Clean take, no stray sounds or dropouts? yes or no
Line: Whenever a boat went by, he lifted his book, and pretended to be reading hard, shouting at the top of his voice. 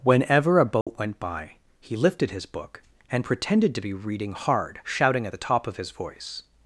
no